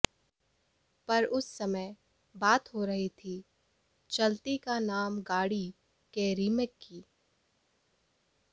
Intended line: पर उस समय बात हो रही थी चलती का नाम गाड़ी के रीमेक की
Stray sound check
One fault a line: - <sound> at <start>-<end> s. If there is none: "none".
none